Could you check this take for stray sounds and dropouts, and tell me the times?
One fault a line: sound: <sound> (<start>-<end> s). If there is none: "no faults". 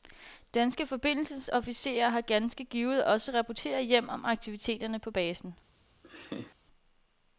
sound: laugh (6.0-6.6 s)